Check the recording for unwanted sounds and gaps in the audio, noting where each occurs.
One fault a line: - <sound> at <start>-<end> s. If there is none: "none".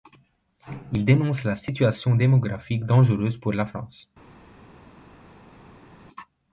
none